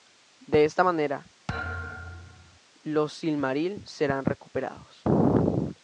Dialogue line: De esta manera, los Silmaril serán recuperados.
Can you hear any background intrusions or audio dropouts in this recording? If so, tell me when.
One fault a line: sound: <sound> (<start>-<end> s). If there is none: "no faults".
sound: thud (1.5-2.6 s)